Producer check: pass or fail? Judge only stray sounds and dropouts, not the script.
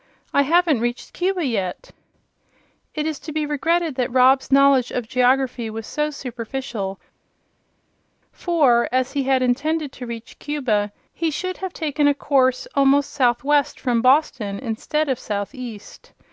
pass